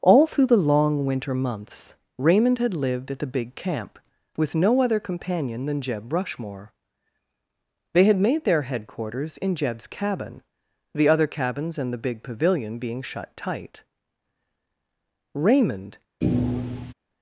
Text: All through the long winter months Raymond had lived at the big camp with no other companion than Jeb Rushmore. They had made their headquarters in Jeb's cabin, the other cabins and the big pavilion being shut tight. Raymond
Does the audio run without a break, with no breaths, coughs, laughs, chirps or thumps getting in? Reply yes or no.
no